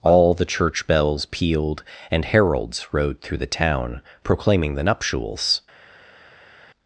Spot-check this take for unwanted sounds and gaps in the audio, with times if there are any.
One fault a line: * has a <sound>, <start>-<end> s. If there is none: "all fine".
all fine